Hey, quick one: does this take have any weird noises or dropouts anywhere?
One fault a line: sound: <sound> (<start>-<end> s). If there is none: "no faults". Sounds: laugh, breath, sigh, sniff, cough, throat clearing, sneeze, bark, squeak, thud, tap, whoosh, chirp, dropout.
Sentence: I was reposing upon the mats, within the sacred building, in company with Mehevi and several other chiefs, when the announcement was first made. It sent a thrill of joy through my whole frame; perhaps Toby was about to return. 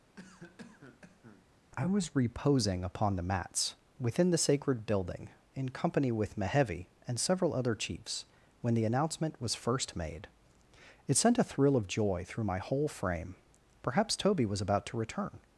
sound: cough (0.2-1.5 s)